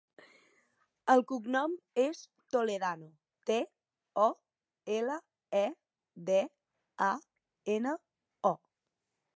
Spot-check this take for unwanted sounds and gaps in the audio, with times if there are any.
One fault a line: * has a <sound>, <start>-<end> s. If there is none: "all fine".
all fine